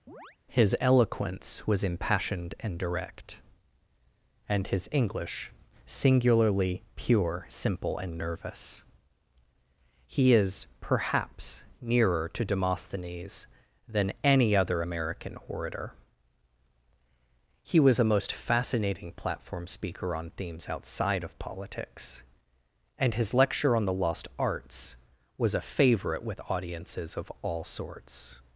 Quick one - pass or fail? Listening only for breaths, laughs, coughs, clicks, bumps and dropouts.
fail